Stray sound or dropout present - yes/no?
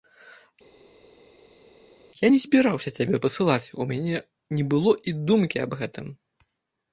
no